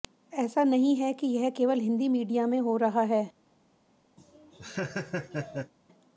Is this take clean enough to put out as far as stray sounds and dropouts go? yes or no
no